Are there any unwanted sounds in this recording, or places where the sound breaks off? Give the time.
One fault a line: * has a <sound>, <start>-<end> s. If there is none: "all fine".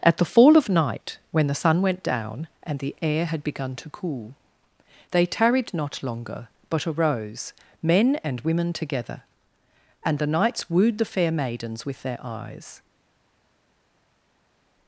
all fine